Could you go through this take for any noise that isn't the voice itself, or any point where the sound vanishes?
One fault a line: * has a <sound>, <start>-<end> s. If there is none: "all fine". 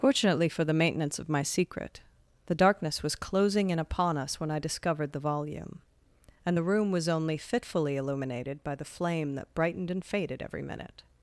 all fine